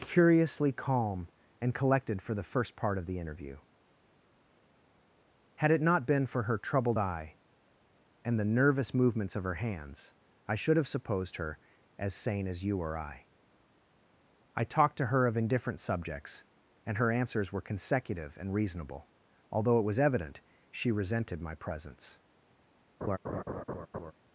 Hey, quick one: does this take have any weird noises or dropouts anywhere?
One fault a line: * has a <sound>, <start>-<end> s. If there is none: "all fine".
* has a laugh, 23.0-24.1 s